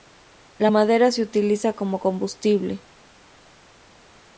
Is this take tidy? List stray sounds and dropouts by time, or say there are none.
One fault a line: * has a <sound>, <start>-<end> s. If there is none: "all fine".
all fine